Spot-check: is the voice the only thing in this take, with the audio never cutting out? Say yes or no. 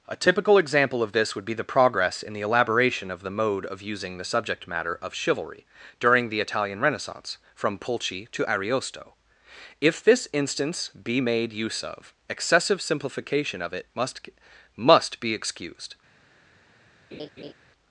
no